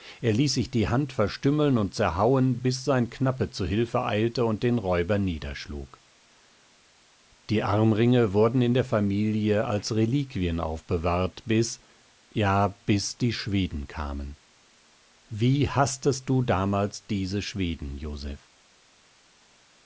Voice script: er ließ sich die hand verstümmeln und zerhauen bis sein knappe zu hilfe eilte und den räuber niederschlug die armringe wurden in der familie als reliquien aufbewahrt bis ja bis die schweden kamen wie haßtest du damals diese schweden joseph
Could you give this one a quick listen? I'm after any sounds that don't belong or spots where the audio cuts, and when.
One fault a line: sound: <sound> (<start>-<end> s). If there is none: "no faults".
no faults